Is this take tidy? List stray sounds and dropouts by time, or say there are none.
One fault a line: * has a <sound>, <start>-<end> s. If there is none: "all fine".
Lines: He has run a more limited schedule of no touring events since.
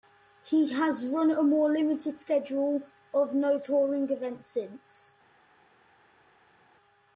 all fine